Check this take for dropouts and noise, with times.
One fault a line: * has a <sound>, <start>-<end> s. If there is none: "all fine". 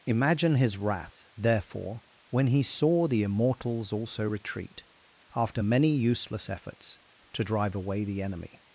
all fine